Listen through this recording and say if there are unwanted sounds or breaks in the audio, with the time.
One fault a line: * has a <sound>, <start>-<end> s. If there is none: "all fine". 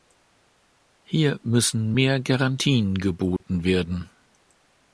* has a dropout, 3.4-3.4 s